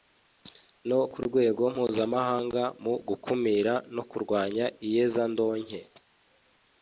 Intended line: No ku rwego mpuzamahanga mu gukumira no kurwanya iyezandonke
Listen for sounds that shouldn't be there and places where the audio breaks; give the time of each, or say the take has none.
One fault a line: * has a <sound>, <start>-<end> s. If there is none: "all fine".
all fine